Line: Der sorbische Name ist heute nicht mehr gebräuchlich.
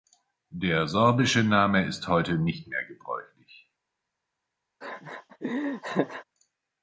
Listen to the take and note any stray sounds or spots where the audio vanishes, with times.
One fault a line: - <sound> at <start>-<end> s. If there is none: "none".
- laugh at 4.8-6.2 s